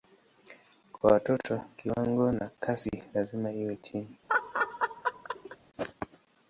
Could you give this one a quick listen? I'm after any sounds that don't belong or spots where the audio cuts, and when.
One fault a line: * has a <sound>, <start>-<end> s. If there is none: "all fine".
* has a laugh, 4.3-5.6 s